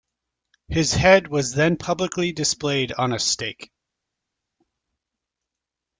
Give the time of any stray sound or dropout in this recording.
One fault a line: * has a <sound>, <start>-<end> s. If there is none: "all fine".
all fine